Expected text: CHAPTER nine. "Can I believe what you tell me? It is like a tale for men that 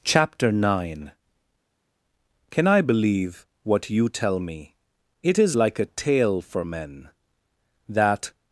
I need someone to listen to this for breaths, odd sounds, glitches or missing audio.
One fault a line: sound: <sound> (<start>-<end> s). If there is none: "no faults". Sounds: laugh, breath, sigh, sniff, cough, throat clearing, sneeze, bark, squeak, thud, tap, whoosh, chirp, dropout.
no faults